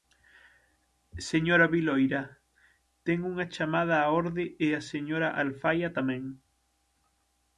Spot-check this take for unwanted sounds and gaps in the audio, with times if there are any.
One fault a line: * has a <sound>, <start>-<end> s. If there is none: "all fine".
all fine